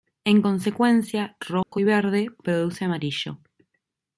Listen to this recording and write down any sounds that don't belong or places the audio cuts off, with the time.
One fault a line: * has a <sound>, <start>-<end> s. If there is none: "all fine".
* has a dropout, 1.6-1.7 s